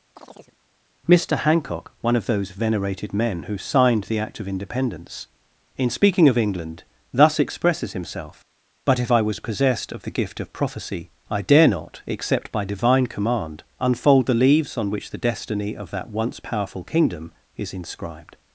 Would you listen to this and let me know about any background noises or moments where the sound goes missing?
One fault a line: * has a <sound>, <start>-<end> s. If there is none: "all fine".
* has a chirp, 0.2-0.6 s